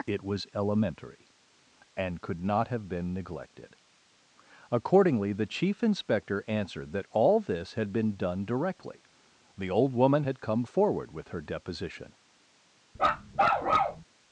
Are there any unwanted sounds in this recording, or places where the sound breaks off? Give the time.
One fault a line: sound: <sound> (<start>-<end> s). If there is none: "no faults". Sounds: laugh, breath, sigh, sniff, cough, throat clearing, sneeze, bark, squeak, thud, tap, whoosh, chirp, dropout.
sound: bark (13.0-14.0 s)